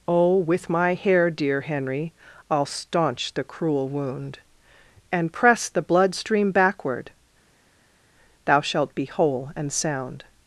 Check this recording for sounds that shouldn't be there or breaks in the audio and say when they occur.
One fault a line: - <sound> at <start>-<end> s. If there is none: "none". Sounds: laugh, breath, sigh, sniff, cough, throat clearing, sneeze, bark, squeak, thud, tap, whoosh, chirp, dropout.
none